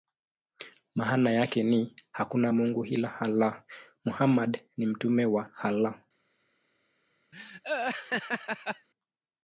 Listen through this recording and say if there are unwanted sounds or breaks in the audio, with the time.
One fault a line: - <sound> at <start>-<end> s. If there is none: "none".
- laugh at 7.3-8.9 s